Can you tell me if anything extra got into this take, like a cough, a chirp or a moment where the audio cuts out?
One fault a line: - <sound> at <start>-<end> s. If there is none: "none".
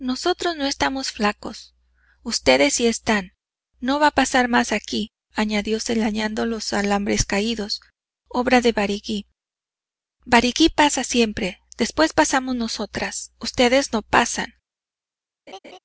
- laugh at 15.5-15.8 s